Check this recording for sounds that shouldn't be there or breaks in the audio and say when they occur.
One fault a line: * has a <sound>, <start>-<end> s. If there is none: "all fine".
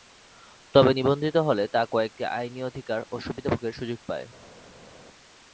all fine